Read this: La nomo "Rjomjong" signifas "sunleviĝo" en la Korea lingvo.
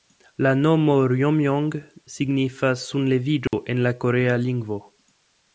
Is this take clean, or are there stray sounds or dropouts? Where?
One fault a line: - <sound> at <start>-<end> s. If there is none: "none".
- dropout at 3.5-3.5 s